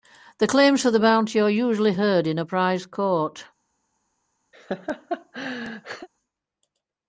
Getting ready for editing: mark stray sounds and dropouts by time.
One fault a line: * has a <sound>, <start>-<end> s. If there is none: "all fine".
* has a laugh, 4.5-6.1 s